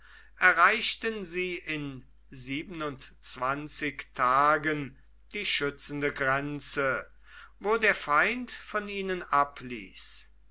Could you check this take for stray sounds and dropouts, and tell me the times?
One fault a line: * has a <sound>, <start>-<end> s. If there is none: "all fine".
all fine